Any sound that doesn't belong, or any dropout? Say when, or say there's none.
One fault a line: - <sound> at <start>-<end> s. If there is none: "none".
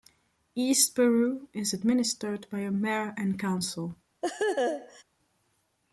- laugh at 4.2-5.0 s